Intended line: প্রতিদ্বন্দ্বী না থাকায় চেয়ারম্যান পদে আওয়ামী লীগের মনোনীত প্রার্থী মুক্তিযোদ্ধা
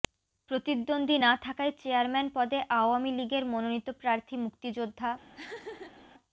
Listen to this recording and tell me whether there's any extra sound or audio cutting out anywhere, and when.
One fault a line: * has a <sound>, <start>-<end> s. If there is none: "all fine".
* has a laugh, 5.3-6.1 s